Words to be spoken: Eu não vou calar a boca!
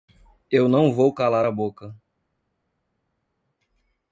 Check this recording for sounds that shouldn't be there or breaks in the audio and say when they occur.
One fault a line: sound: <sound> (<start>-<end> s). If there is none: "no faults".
no faults